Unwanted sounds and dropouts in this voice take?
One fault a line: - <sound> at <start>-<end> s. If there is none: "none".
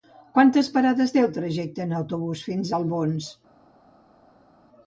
none